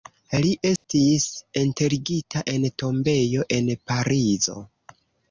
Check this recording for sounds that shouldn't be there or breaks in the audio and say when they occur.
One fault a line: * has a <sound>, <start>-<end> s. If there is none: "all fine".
* has a dropout, 0.8-0.8 s